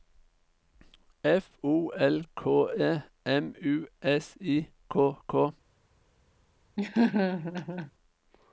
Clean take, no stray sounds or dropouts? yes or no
no